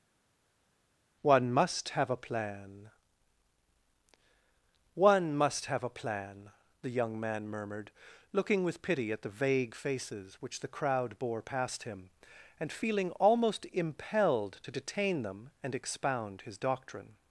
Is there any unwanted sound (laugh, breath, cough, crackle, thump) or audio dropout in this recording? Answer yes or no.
no